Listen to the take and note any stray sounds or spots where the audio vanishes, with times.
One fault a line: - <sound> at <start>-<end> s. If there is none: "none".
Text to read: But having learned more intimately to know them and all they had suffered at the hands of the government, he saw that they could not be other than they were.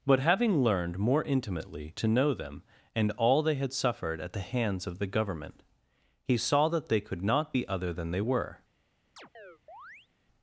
- chirp at 9.2-10.1 s